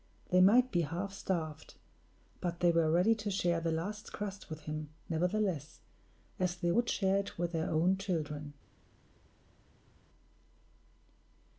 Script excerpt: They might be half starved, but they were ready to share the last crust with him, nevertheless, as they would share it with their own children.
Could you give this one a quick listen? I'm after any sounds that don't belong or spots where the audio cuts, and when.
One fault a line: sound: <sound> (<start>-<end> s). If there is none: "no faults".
no faults